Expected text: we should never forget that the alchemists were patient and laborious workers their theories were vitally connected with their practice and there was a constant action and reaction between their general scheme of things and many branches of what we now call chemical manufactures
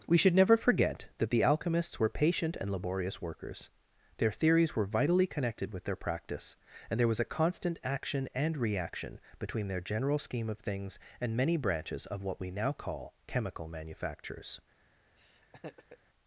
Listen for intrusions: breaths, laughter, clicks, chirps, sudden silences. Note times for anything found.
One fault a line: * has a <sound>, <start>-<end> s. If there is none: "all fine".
* has a laugh, 15.2-16.0 s